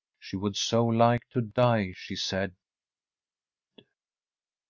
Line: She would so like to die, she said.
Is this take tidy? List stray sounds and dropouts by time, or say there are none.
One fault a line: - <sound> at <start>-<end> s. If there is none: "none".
none